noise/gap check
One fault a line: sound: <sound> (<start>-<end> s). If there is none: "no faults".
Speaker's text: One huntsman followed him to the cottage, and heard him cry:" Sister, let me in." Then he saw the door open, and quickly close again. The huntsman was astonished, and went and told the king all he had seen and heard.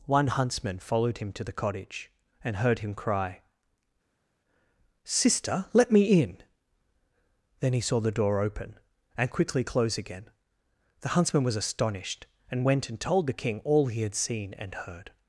no faults